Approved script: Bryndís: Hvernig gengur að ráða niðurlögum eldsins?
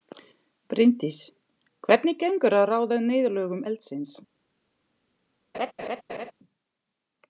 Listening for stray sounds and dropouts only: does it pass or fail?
fail